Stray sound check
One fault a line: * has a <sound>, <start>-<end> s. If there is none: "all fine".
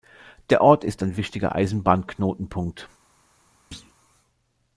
* has a thud, 3.7-3.9 s